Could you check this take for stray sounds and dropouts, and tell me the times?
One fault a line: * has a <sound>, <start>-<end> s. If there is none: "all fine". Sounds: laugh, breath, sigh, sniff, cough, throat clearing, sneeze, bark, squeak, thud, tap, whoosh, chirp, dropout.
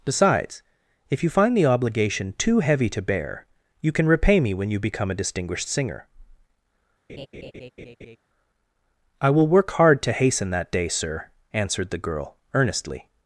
* has a laugh, 7.1-8.2 s